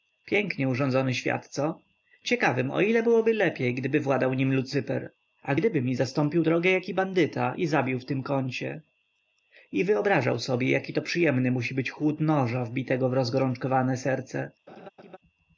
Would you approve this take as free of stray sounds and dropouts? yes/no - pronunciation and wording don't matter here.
no